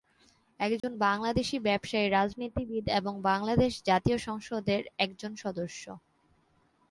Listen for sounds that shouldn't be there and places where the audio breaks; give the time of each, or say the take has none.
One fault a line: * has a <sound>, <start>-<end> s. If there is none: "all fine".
* has a dropout, 0.8-0.8 s